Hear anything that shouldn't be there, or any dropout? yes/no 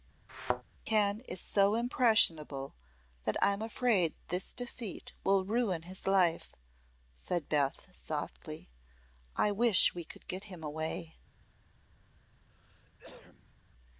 yes